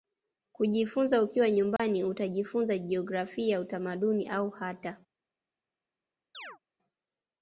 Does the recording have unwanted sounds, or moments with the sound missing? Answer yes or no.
yes